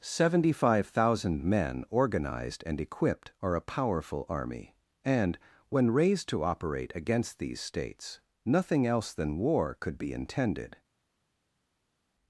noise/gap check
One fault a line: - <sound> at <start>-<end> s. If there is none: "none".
none